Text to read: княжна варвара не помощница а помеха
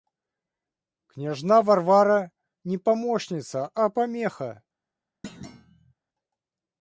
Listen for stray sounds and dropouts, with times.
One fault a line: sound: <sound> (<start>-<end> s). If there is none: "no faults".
sound: thud (5.2-5.9 s)